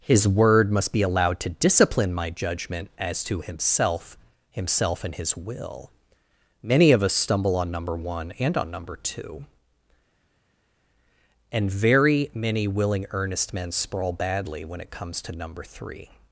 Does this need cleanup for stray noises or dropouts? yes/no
no